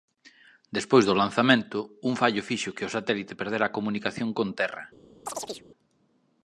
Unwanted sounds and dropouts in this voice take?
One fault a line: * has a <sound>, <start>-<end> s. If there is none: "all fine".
* has a chirp, 5.3-5.6 s